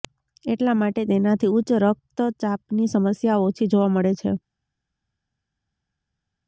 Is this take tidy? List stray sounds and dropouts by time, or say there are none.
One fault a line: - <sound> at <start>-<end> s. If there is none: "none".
none